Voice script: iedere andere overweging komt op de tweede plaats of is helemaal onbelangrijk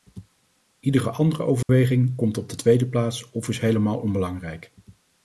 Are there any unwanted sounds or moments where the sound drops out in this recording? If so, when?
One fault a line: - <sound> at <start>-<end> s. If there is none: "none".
- dropout at 1.6-1.7 s